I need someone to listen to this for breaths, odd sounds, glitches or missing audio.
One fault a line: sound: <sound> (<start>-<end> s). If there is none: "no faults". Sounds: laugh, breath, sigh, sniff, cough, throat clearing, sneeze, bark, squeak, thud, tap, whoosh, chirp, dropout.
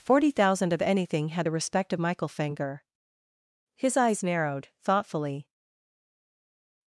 no faults